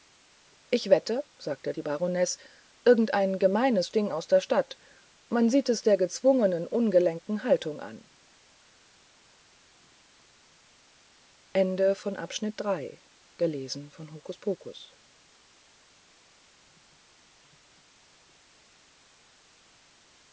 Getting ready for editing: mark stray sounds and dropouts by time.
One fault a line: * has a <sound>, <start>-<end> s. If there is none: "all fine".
all fine